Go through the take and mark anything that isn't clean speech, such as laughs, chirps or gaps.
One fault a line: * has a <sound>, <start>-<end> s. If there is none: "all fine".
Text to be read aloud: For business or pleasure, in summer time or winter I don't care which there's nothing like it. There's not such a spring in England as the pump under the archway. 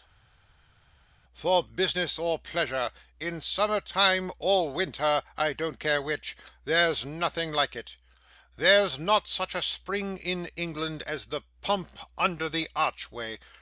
all fine